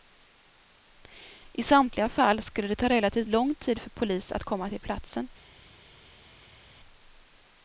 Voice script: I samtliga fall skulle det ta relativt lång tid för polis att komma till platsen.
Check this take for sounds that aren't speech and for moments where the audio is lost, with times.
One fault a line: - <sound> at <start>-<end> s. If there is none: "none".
none